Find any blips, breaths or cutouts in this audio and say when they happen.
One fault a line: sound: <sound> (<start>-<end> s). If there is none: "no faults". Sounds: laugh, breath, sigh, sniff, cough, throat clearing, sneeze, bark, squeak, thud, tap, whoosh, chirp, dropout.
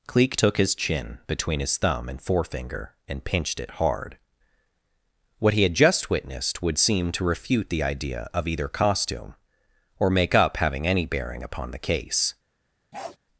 sound: bark (12.9-13.2 s)